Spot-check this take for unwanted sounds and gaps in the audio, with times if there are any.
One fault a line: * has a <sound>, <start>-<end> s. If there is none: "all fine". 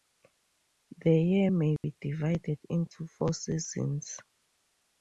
* has a dropout, 1.8-1.8 s